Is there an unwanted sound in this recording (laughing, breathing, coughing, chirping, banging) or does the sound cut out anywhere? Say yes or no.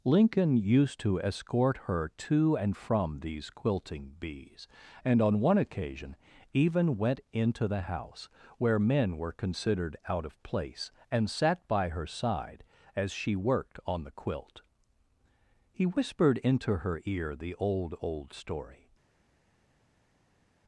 no